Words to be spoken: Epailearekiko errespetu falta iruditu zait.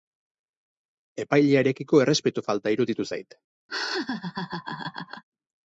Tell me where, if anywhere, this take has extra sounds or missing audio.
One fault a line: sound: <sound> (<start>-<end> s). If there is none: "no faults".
sound: laugh (3.7-5.2 s)